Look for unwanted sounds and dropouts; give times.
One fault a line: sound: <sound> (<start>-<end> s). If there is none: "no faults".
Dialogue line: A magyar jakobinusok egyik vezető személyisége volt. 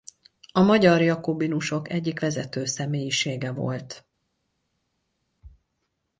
no faults